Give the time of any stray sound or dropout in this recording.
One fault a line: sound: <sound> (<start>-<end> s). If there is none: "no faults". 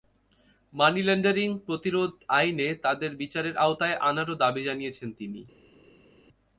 no faults